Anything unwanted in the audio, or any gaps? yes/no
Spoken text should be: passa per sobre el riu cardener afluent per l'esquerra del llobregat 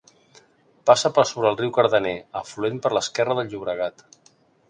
no